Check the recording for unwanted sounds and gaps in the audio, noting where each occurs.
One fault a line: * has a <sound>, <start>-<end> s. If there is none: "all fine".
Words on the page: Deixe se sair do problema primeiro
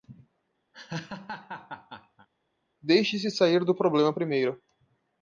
* has a laugh, 0.7-2.3 s